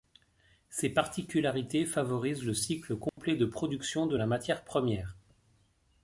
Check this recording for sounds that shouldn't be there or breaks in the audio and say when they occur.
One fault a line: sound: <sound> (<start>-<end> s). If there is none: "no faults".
sound: dropout (3.1-3.2 s)